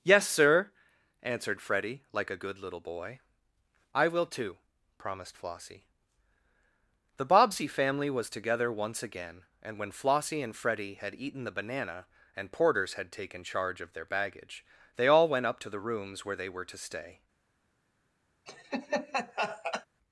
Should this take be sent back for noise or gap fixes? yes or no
yes